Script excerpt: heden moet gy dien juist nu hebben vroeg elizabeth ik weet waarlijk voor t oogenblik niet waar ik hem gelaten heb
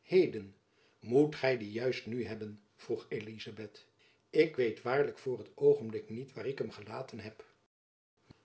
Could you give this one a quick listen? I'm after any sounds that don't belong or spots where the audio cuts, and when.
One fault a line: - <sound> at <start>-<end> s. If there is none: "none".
none